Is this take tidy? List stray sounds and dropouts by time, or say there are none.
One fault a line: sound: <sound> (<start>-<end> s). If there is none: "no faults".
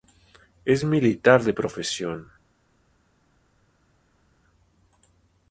no faults